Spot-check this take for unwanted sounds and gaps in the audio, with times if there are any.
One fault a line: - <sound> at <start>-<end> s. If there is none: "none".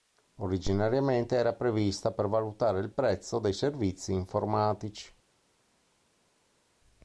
none